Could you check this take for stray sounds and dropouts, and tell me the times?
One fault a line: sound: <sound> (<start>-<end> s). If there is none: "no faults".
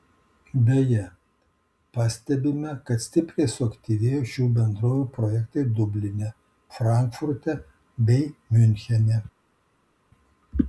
no faults